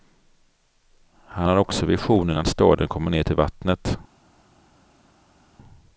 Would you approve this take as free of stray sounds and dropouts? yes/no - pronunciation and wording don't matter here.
yes